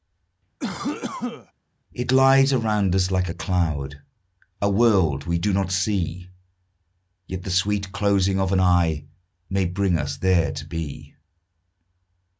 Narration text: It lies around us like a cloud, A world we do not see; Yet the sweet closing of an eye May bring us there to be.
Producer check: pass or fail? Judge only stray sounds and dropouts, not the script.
fail